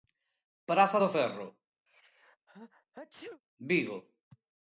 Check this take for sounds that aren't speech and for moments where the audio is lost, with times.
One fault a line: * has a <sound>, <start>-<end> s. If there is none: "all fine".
* has a sneeze, 1.9-3.4 s